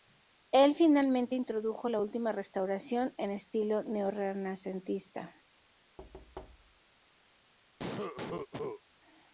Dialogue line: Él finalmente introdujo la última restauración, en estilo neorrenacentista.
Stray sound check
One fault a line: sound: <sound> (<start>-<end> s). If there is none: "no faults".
sound: thud (6.0-6.8 s)
sound: cough (7.8-8.8 s)